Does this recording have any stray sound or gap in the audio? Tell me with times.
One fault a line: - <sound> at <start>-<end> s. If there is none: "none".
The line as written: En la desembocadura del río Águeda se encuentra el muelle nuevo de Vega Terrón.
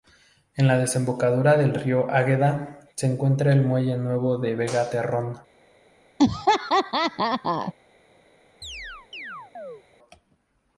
- laugh at 6.2-7.7 s
- chirp at 8.6-9.8 s